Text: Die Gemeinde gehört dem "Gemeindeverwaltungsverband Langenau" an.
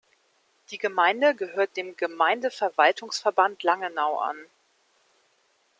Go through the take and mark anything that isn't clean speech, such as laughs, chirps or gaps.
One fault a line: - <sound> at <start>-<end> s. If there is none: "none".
none